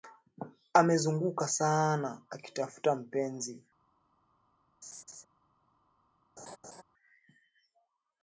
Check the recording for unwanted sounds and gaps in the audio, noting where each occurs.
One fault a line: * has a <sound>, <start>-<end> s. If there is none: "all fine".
* has a laugh, 4.8-5.2 s
* has a laugh, 6.4-6.8 s